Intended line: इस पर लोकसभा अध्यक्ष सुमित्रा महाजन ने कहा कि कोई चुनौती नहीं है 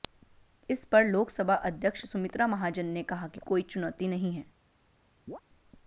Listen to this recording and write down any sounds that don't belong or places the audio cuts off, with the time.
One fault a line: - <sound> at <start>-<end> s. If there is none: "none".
- chirp at 5.3-5.4 s